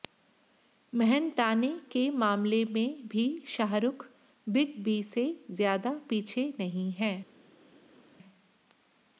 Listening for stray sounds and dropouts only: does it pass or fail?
pass